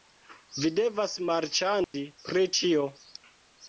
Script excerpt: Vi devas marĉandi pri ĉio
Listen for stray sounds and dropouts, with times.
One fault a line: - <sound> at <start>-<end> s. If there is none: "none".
- dropout at 1.8-1.9 s